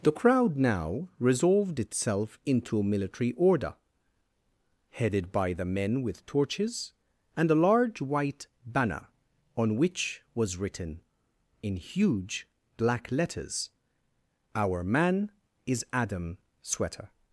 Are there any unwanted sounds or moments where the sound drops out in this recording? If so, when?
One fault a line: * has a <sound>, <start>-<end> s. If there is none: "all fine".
all fine